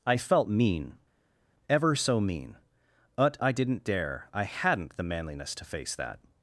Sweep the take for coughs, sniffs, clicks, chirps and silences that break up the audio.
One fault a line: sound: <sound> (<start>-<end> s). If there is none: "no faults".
no faults